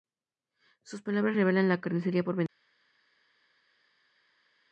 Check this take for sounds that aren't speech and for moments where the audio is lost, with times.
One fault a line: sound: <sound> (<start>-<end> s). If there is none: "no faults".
no faults